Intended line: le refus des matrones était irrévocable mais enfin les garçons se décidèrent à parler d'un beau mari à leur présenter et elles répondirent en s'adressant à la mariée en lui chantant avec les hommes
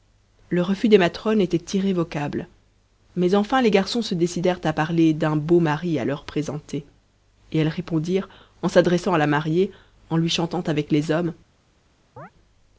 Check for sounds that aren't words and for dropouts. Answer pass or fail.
fail